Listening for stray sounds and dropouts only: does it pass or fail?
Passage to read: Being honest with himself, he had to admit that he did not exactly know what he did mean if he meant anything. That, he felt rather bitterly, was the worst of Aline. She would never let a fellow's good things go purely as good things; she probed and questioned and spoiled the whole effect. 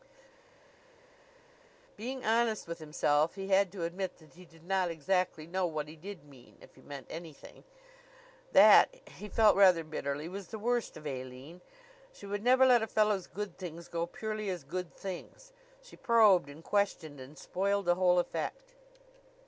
pass